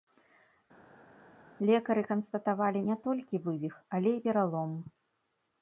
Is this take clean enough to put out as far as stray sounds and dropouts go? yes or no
yes